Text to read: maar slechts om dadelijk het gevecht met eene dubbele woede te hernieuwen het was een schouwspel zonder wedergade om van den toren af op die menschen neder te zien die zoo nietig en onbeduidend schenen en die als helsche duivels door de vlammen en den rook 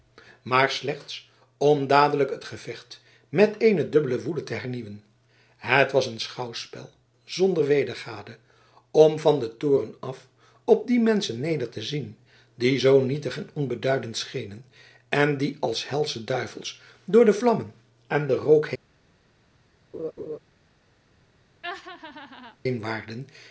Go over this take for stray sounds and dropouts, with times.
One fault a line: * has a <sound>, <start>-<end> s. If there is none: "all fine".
* has a laugh, 19.9-20.4 s
* has a laugh, 21.6-22.6 s